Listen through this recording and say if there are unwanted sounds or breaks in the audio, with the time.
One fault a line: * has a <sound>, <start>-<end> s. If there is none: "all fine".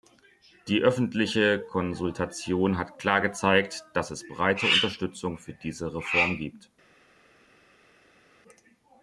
all fine